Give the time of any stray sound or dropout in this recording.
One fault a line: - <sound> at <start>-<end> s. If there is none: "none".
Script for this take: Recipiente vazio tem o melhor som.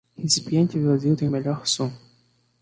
none